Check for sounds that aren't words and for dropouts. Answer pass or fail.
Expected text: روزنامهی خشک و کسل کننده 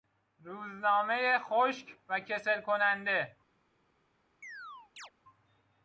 fail